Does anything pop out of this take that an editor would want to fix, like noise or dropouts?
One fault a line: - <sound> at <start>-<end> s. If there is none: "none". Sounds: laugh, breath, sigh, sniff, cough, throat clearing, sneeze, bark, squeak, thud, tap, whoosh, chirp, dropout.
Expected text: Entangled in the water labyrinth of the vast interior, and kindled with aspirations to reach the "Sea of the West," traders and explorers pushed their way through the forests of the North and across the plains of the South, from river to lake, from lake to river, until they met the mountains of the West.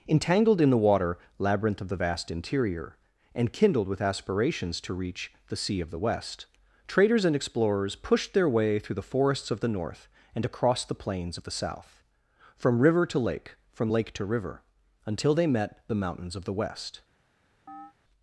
- chirp at 17.7-17.9 s